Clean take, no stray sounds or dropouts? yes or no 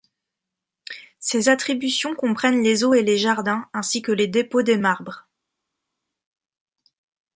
yes